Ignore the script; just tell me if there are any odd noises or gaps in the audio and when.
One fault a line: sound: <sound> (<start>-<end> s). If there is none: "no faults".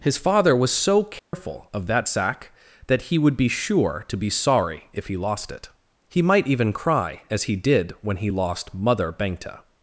sound: dropout (1.2-1.3 s)